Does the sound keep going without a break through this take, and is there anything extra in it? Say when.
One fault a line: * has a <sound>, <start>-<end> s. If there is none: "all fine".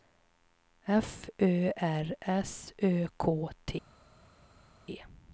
all fine